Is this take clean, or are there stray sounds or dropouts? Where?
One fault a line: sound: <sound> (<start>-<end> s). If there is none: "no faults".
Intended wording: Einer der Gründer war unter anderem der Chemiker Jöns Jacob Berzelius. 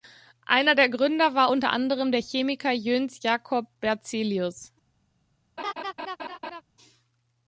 sound: laugh (5.6-6.6 s)